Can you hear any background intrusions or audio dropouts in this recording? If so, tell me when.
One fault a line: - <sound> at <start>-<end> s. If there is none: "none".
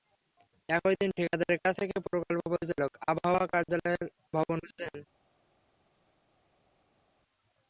none